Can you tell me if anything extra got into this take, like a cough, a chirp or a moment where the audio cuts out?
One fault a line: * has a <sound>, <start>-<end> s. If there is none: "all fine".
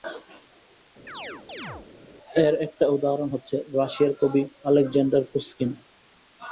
* has a chirp, 1.1-1.9 s